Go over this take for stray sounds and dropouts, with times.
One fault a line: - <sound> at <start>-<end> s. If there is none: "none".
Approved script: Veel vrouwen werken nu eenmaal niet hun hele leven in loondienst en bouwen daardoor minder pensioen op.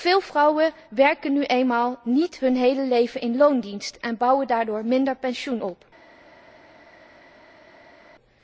none